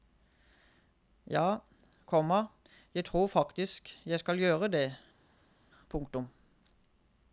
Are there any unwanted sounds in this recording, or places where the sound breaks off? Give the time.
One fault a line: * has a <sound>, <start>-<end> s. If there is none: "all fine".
all fine